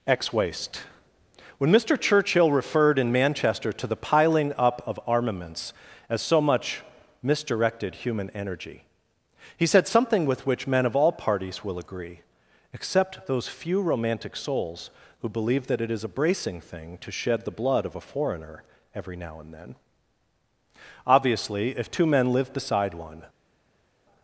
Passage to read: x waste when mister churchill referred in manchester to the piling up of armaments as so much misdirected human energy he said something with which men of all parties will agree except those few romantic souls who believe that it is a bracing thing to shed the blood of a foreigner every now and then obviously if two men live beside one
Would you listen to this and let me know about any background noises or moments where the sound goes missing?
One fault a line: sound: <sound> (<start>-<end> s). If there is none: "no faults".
no faults